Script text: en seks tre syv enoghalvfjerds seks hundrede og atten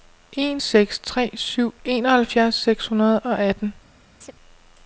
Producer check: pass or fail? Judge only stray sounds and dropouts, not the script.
fail